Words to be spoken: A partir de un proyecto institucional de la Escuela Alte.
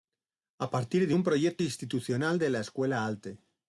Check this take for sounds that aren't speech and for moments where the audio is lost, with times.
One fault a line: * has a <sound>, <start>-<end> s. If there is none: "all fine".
all fine